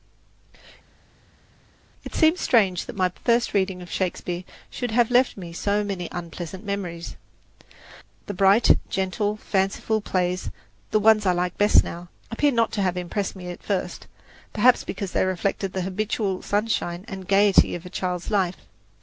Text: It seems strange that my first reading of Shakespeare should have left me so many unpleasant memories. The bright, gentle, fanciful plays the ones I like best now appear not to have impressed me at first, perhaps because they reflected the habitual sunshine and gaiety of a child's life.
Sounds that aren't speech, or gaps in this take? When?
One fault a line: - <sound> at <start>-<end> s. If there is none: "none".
none